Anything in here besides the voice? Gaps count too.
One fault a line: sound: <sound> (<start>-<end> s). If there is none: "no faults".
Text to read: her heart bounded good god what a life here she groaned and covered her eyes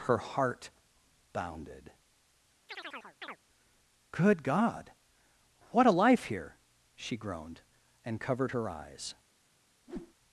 sound: chirp (2.7-3.4 s)
sound: whoosh (9.9-10.1 s)